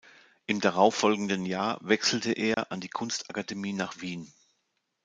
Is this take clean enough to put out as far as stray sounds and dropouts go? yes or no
no